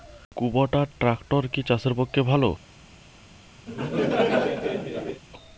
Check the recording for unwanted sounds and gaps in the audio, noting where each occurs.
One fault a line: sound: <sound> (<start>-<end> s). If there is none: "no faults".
sound: laugh (3.7-5.2 s)